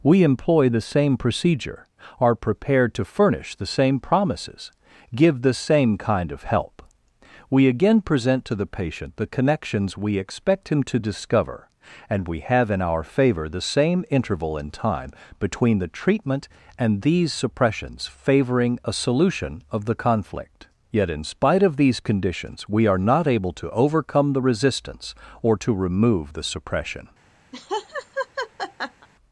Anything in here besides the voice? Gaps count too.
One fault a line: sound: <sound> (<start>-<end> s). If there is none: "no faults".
sound: laugh (27.5-29.1 s)